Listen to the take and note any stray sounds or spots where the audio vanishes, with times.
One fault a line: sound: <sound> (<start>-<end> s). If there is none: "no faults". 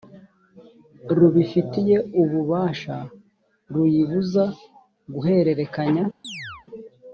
sound: chirp (6.2-6.7 s)